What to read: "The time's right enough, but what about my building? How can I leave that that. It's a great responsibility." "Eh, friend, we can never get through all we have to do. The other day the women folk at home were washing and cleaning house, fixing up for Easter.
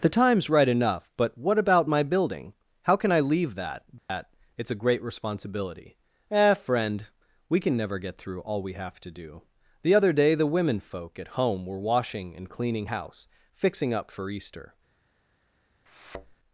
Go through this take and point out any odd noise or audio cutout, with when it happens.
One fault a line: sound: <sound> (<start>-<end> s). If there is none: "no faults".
sound: dropout (4.0-4.1 s)
sound: thud (15.9-16.4 s)